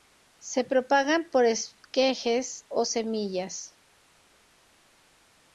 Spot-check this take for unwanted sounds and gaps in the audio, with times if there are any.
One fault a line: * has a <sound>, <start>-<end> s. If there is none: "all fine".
all fine